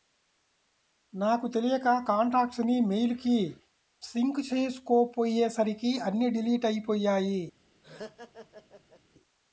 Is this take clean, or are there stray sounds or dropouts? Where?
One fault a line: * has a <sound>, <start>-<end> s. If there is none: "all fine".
* has a laugh, 7.8-9.0 s